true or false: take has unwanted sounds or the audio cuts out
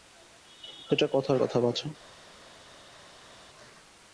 false